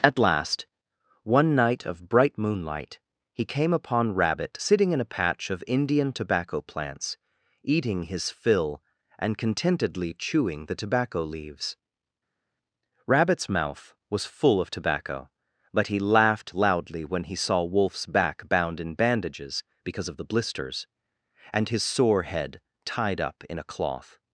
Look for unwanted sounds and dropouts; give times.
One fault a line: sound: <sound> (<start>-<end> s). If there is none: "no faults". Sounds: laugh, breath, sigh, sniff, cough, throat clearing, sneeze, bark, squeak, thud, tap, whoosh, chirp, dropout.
no faults